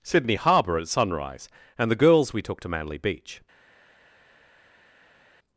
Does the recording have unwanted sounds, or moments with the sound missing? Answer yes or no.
no